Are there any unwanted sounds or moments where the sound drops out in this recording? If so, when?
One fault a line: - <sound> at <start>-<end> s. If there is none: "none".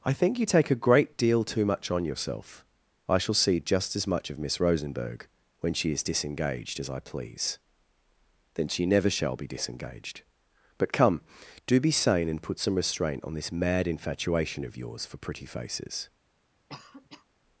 - cough at 16.7-17.3 s